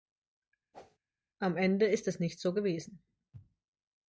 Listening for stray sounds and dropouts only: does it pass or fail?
fail